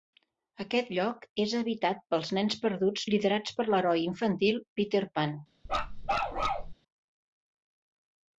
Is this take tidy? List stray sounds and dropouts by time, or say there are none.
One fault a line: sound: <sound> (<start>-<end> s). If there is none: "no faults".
sound: bark (5.7-6.7 s)